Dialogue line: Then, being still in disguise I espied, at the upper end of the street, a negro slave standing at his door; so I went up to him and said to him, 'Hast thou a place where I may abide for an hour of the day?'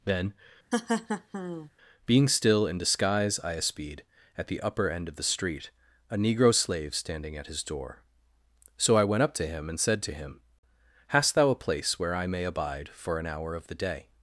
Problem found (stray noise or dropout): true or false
true